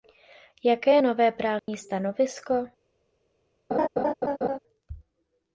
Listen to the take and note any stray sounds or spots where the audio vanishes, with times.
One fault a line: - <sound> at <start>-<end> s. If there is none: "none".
- dropout at 1.6-1.7 s
- laugh at 3.7-4.6 s